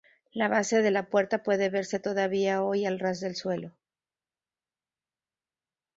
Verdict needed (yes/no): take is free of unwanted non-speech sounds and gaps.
yes